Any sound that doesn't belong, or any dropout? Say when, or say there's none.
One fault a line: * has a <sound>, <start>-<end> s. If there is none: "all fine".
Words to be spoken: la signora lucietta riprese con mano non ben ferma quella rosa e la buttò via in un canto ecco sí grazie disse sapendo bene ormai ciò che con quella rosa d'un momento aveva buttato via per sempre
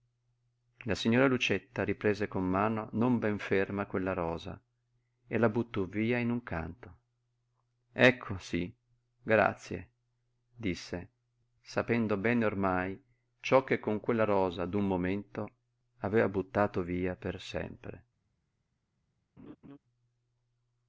* has a laugh, 19.4-19.8 s